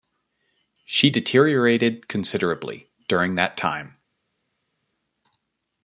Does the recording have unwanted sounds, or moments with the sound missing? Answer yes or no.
no